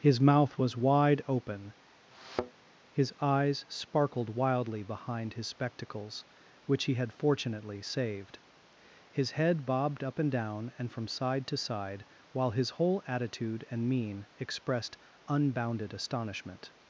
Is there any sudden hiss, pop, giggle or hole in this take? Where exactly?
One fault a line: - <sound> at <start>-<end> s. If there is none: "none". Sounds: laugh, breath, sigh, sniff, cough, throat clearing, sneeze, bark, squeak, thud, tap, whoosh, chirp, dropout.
- thud at 2.1-2.6 s